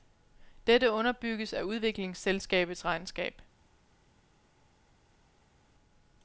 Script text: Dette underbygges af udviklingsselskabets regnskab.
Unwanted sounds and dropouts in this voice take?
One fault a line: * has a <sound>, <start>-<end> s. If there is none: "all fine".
all fine